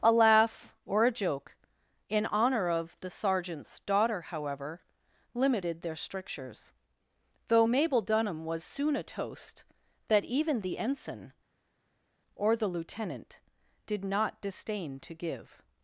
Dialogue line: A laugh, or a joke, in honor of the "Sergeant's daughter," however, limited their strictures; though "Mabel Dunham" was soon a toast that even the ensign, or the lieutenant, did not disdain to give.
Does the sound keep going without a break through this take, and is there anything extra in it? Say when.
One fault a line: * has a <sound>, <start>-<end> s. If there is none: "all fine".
all fine